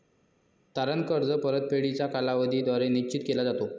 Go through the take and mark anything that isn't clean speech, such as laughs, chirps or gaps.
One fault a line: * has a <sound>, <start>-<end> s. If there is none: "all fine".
all fine